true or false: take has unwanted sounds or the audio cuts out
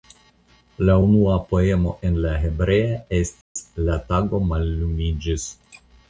true